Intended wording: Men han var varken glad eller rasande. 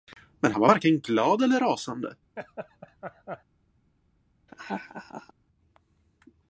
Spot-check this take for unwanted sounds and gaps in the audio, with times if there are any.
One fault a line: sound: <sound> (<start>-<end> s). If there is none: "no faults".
sound: laugh (2.4-3.4 s)
sound: laugh (4.5-5.3 s)